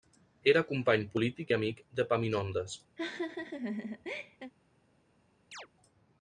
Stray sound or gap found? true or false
true